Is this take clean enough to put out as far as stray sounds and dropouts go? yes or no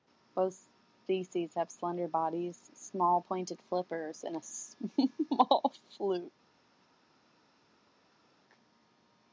yes